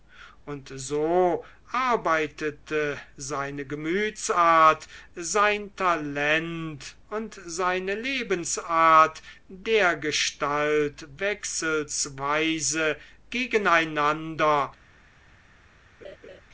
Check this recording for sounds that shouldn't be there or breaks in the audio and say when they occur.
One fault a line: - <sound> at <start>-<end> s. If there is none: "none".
- laugh at 16.0-16.4 s